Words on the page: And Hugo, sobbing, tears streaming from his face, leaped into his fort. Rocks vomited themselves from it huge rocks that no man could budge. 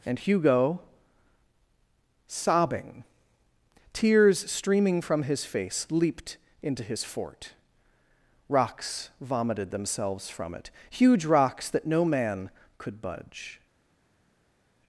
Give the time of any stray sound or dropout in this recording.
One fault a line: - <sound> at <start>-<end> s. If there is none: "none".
none